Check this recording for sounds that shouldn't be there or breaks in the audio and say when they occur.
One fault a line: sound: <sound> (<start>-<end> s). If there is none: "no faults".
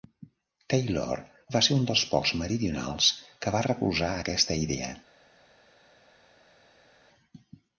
no faults